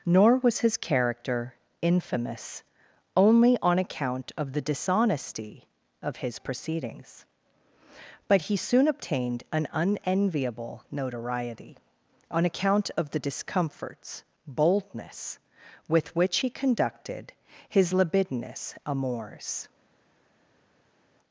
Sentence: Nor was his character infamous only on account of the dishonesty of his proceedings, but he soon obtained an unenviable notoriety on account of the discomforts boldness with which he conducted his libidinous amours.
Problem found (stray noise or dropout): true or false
false